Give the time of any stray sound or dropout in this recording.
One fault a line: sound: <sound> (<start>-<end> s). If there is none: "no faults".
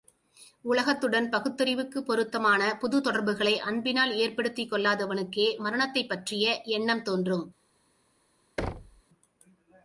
sound: thud (8.6-9.0 s)